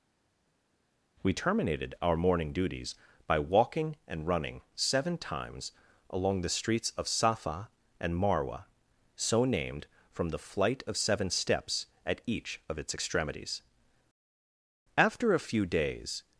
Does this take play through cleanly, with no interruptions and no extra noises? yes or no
yes